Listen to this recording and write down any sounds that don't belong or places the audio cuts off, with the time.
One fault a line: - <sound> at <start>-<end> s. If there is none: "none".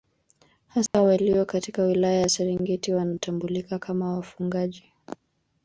- dropout at 0.9-0.9 s